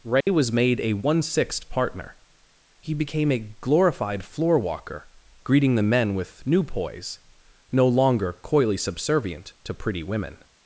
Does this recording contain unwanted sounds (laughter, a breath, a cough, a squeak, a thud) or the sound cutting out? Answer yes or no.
yes